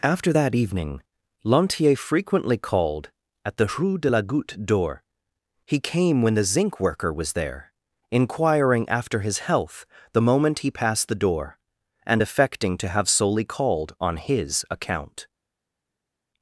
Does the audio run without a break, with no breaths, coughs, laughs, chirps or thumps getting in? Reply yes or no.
yes